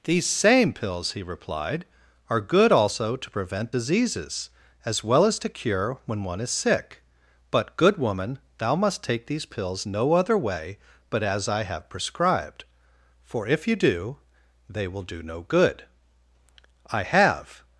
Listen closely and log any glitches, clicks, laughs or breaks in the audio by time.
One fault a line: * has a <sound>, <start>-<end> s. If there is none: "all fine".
all fine